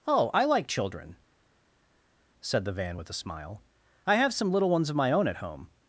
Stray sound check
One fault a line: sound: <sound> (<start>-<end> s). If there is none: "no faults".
no faults